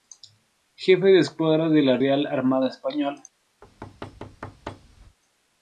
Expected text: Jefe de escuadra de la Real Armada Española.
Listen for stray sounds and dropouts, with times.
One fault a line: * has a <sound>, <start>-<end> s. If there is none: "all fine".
* has a thud, 3.6-5.2 s